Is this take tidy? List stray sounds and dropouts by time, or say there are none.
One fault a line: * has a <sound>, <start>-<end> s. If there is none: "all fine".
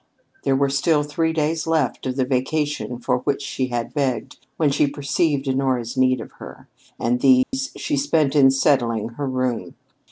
* has a dropout, 7.4-7.5 s